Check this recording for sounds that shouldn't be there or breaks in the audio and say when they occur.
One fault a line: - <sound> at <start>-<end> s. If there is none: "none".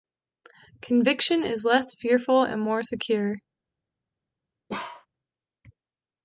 - bark at 4.7-5.1 s